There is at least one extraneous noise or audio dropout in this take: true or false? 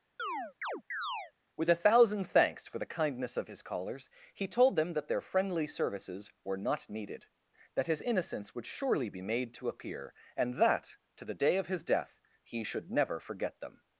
true